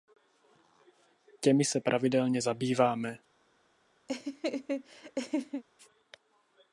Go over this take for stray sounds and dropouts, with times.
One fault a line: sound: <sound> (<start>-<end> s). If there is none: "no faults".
sound: laugh (4.1-5.6 s)